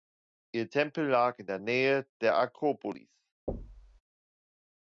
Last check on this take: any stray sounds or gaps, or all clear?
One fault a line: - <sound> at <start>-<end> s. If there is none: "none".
- thud at 3.5-4.0 s